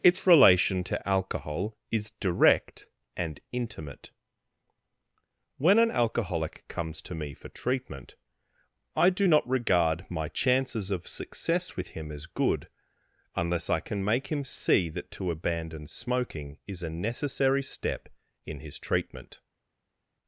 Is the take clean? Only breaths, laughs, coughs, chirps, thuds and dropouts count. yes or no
yes